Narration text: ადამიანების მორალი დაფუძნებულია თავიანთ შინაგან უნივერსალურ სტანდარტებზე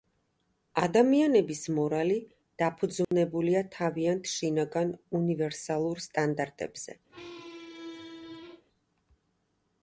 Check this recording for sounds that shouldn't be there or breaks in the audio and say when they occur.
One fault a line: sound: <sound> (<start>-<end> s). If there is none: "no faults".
sound: dropout (3.0-3.1 s)
sound: squeak (7.1-8.6 s)